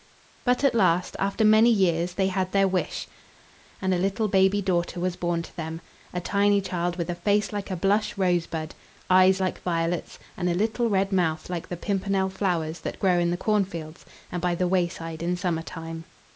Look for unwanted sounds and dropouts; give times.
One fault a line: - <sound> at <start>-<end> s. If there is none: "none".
none